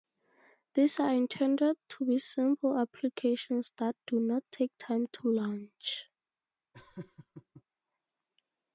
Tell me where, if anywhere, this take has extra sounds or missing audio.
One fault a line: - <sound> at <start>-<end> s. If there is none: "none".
- laugh at 6.7-7.6 s